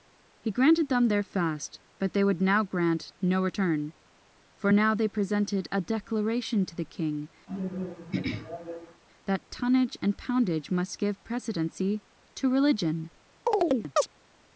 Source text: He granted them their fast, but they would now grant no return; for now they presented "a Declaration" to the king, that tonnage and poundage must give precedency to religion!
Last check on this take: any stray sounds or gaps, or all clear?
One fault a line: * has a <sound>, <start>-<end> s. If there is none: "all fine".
* has a throat clearing, 7.5-9.0 s
* has a chirp, 13.5-14.1 s